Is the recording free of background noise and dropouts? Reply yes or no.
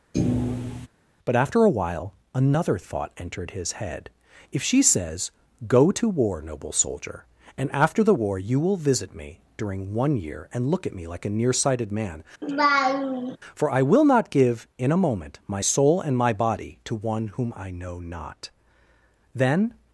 no